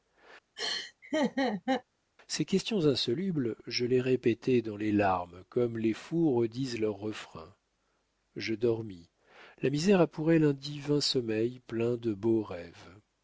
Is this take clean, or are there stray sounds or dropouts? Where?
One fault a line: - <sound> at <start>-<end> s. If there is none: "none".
- laugh at 0.6-1.8 s